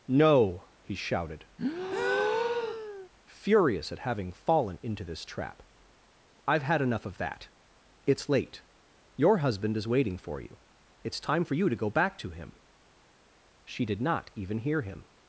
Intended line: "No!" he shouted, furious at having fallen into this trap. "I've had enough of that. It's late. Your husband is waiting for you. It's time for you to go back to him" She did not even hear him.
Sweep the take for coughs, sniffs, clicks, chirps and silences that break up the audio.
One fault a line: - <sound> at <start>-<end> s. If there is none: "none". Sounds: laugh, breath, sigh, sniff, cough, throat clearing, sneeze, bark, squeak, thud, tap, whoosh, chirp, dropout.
- breath at 1.6-3.1 s